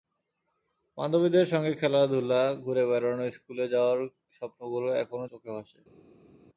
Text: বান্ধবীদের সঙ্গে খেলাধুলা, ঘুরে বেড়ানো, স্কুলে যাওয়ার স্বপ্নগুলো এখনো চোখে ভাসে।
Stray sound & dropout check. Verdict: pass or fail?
pass